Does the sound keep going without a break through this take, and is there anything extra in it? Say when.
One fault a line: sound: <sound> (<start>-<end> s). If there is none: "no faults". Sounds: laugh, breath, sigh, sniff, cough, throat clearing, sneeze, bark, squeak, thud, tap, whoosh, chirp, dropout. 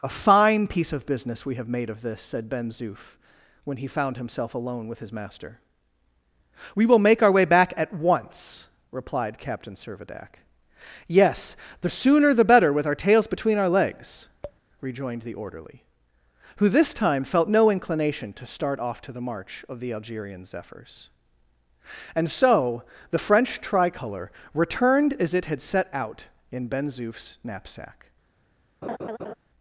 sound: tap (14.4-14.6 s)
sound: laugh (28.8-29.3 s)